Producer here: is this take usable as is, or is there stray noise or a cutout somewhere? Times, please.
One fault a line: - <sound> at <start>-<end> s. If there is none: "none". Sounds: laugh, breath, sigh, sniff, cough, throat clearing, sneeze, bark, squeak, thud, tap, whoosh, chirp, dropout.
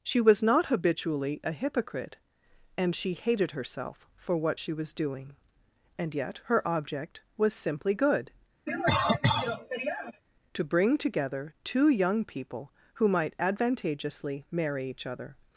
- cough at 8.7-10.2 s